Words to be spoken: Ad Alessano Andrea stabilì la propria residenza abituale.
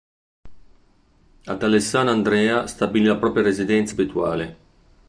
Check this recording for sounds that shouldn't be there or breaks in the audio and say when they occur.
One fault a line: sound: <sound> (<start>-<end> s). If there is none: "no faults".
no faults